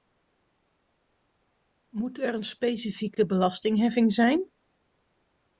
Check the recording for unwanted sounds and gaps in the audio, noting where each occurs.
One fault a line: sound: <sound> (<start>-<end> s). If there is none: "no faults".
no faults